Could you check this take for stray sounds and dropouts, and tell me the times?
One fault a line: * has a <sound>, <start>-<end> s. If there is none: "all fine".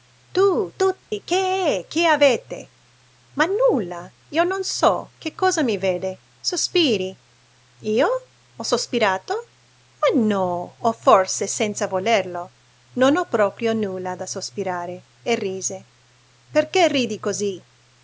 * has a dropout, 1.0-1.1 s